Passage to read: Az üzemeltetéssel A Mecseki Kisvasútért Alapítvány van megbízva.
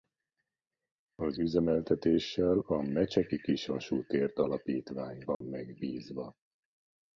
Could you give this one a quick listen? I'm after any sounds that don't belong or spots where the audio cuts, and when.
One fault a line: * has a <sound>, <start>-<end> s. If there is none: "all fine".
* has a dropout, 5.3-5.4 s